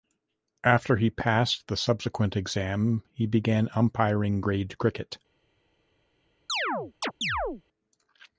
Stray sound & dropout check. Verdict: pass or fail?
fail